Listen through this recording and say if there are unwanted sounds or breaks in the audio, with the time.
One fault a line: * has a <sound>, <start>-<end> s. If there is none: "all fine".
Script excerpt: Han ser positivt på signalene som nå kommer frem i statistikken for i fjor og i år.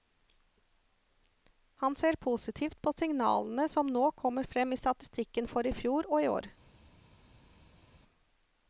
all fine